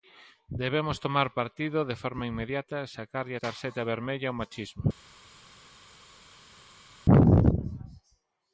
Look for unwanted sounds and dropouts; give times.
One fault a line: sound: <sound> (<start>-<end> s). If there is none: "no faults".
no faults